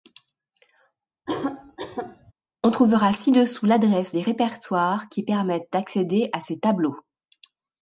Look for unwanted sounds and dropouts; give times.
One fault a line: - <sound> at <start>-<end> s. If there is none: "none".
- cough at 1.3-2.3 s